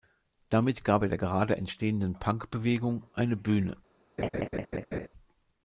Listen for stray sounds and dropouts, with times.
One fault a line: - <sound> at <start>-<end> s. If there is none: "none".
- laugh at 4.2-5.1 s